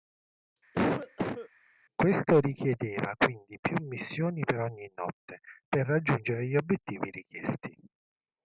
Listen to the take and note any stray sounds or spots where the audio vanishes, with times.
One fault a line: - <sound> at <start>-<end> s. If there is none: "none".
- cough at 0.7-1.5 s